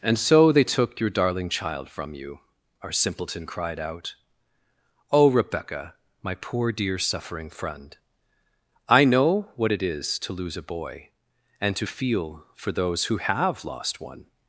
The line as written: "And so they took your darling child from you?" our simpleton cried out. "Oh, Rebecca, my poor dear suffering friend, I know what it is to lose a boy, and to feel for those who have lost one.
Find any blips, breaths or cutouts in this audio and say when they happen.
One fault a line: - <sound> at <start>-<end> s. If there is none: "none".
none